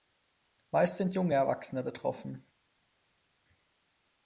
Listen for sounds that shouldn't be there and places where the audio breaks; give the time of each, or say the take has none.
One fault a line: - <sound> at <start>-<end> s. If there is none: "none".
none